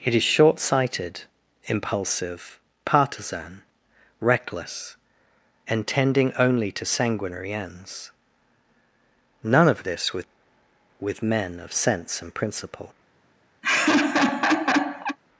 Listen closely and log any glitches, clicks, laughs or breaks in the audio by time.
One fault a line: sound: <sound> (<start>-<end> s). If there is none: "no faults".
sound: laugh (13.6-15.2 s)